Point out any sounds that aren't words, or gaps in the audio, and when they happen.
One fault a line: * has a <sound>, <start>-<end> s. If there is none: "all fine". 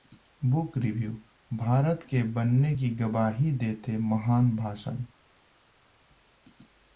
all fine